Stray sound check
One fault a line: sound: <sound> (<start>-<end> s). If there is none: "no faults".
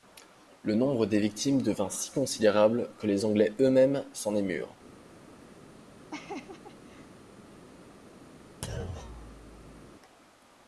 sound: laugh (6.1-7.2 s)
sound: thud (8.6-9.9 s)